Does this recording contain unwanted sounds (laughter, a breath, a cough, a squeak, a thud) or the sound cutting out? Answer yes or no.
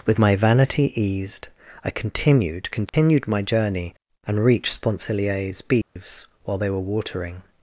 yes